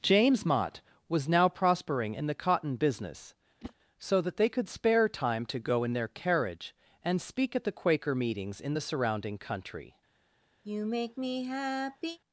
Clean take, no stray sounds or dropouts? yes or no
no